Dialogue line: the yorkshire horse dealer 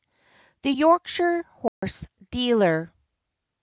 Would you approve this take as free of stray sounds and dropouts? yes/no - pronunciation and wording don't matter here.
no